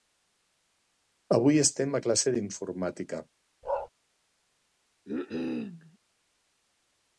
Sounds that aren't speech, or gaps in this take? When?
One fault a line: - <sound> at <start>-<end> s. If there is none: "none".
- bark at 3.6-3.9 s
- cough at 5.1-6.0 s